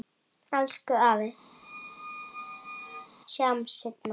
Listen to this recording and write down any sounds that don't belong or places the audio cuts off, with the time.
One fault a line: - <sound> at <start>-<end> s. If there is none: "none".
- squeak at 1.5-3.1 s